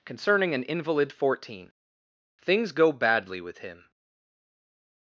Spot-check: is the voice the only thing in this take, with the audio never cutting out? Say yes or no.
yes